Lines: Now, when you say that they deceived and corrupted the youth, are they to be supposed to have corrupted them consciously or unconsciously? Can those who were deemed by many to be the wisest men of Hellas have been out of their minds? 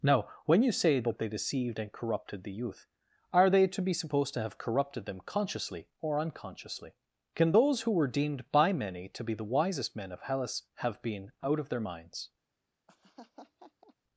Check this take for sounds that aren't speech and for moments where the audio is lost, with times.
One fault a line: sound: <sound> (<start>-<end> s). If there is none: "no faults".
sound: laugh (12.9-13.9 s)